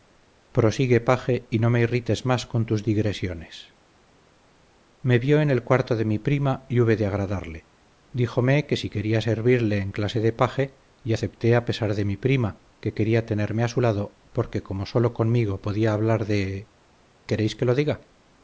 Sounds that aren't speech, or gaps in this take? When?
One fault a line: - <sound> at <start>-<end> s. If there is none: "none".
none